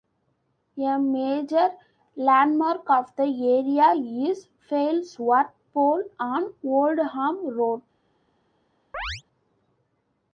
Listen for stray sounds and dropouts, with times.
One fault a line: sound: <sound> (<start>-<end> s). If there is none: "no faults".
sound: chirp (8.9-9.2 s)